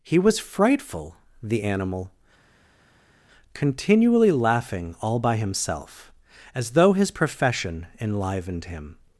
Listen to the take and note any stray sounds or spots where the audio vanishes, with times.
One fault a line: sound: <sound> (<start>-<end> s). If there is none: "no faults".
no faults